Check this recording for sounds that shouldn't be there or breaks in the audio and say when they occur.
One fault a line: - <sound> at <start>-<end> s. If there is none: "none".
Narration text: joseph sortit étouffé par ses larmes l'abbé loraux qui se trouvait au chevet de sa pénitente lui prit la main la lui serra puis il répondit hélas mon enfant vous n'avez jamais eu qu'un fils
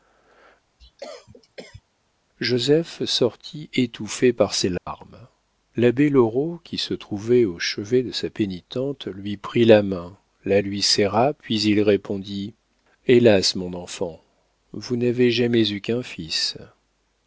- cough at 0.8-1.8 s
- dropout at 4.8-4.9 s